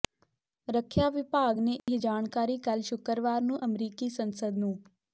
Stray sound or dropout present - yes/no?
yes